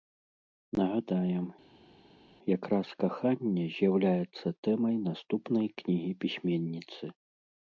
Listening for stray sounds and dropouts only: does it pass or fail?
pass